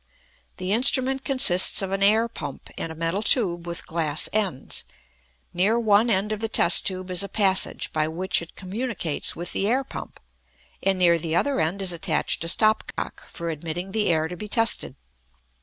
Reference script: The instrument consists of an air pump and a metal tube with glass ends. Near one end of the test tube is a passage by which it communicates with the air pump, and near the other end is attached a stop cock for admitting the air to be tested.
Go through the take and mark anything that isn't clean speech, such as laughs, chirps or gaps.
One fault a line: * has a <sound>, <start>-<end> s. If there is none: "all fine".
* has a dropout, 12.9-13.0 s